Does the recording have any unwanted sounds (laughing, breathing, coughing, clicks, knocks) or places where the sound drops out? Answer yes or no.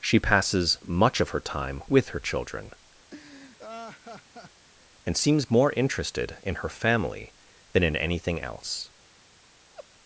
yes